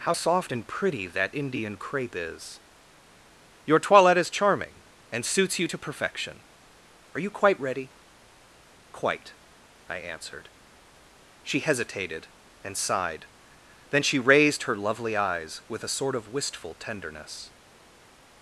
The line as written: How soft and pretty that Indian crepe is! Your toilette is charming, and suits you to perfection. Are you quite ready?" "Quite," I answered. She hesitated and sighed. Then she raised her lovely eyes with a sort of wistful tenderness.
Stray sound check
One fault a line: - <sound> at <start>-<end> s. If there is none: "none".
none